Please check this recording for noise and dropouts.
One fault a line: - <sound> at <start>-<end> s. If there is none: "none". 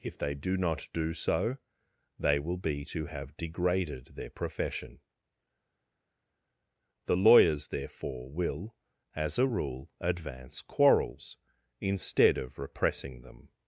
none